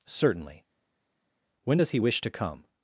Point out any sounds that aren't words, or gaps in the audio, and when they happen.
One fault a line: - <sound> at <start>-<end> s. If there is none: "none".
none